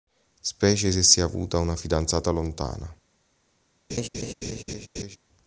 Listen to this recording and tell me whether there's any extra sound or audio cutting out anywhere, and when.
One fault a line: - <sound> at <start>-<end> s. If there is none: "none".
- laugh at 3.9-5.2 s